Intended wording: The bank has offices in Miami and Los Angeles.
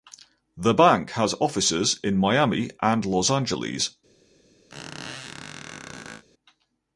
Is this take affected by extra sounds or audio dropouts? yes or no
yes